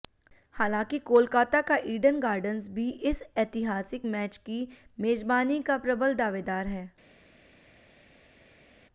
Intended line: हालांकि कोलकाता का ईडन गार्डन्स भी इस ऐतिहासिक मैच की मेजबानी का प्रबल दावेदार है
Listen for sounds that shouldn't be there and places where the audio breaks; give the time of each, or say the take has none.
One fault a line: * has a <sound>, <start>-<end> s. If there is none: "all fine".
all fine